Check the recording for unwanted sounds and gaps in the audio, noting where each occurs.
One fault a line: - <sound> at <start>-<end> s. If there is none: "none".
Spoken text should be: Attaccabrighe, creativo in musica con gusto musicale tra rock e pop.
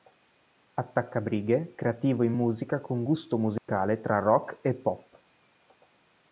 - dropout at 3.6-3.7 s